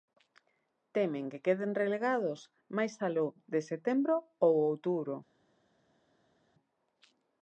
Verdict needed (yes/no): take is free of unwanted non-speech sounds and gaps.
yes